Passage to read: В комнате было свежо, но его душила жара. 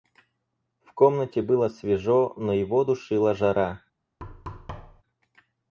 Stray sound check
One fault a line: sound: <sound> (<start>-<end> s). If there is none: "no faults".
sound: thud (4.2-5.0 s)